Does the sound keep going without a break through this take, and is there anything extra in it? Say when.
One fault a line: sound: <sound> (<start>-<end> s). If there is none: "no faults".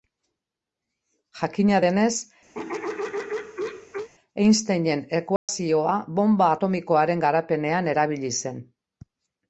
sound: throat clearing (2.5-4.1 s)
sound: dropout (5.4-5.5 s)